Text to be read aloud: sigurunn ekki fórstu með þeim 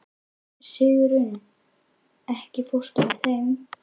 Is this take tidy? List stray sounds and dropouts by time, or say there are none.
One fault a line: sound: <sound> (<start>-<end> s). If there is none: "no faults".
no faults